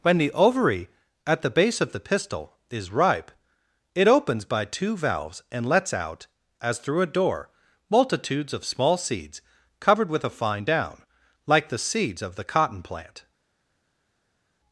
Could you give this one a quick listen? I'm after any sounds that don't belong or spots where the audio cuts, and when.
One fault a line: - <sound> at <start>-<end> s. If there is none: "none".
none